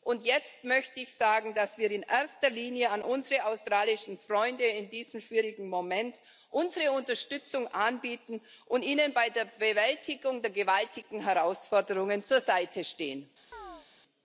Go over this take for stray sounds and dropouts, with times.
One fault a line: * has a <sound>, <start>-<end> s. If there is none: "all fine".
* has a chirp, 13.5-13.9 s